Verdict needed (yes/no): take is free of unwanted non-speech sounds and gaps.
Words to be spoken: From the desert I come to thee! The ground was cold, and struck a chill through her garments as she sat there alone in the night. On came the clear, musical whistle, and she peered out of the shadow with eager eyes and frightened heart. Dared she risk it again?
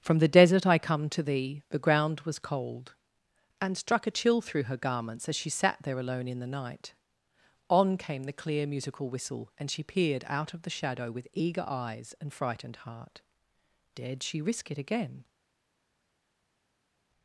yes